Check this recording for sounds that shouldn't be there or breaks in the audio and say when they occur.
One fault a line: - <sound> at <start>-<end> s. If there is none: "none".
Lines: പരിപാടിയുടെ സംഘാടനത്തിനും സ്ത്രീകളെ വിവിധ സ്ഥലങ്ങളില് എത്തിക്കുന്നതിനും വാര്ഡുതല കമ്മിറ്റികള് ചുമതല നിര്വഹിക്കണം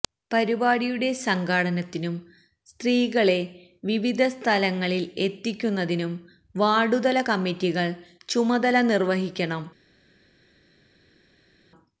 none